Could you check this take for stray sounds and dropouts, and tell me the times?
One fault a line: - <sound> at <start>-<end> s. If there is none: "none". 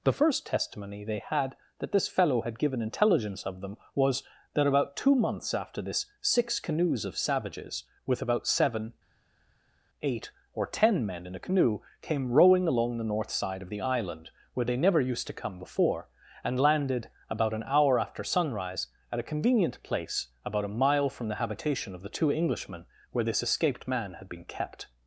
none